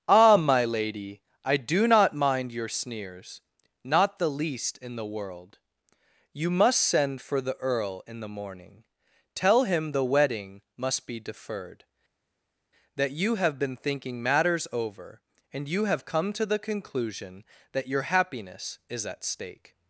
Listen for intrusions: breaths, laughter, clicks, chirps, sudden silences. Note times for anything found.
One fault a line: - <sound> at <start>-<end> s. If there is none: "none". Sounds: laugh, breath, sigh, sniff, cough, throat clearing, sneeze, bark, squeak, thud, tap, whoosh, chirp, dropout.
none